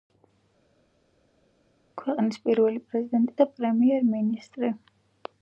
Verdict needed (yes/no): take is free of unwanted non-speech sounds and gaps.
yes